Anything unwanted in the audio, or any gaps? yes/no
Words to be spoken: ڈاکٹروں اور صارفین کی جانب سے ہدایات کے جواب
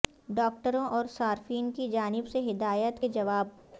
no